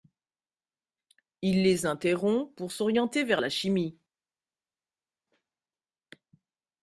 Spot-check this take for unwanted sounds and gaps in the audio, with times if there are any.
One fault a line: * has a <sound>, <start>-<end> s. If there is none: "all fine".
all fine